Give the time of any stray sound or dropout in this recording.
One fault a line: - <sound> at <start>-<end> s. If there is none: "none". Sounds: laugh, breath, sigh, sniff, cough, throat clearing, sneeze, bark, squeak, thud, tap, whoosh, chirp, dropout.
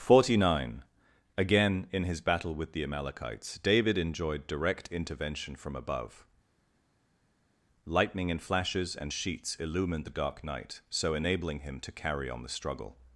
none